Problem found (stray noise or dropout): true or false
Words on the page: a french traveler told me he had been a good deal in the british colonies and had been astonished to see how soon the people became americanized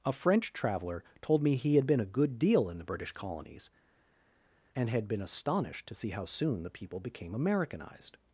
false